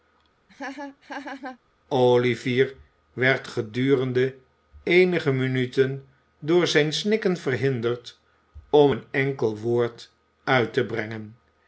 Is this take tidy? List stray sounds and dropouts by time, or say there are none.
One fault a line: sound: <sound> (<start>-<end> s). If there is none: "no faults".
sound: laugh (0.5-1.6 s)